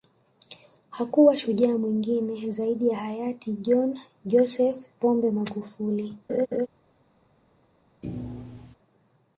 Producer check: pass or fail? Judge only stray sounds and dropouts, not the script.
fail